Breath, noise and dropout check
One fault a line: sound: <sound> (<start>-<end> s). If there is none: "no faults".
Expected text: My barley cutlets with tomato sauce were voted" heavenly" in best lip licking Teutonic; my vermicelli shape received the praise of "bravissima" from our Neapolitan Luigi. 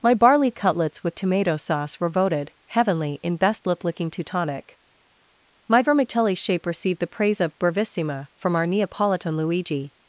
no faults